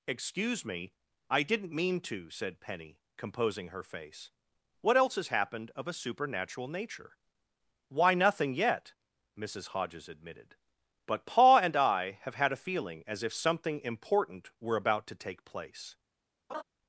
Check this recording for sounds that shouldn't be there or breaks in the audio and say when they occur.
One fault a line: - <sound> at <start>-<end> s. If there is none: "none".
- laugh at 16.5-16.6 s